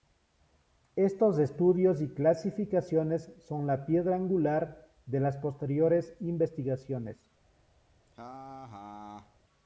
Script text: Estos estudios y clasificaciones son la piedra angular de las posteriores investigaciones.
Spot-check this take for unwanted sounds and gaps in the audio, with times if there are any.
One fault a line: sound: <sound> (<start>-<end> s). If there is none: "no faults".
sound: laugh (8.1-9.4 s)